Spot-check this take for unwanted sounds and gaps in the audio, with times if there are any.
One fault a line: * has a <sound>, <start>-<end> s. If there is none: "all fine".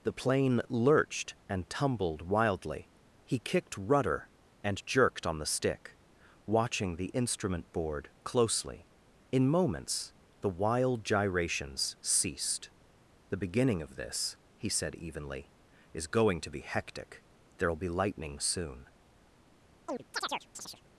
* has a chirp, 19.9-20.8 s